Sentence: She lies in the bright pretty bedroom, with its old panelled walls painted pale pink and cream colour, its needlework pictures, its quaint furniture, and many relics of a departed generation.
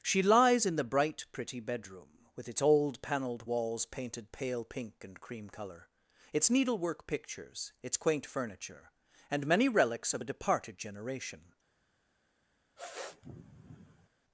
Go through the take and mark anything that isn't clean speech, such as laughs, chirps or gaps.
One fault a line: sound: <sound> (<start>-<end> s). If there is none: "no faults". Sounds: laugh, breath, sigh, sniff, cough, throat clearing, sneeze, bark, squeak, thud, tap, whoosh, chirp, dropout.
sound: sniff (12.8-14.1 s)